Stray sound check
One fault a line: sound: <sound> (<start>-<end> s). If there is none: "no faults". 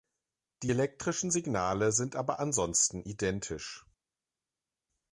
no faults